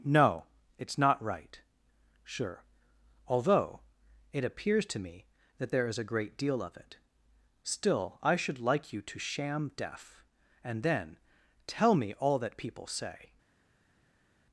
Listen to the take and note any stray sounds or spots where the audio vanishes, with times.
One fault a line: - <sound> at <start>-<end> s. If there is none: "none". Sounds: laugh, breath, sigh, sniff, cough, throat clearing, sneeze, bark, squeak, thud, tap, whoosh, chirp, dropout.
none